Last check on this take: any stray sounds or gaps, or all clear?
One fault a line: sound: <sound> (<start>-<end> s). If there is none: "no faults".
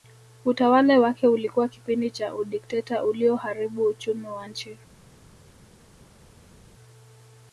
no faults